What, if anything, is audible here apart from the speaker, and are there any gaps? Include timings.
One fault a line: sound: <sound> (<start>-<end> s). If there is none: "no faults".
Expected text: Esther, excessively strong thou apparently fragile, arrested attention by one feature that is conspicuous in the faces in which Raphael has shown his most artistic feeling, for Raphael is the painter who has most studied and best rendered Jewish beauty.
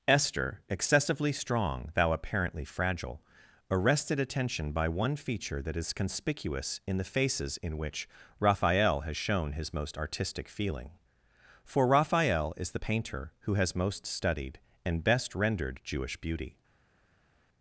no faults